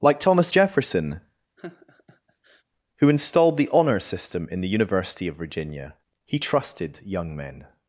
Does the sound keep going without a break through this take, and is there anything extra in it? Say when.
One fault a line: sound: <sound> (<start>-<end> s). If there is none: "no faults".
sound: laugh (1.6-2.6 s)